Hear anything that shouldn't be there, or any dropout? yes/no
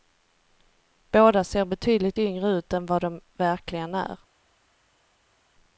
no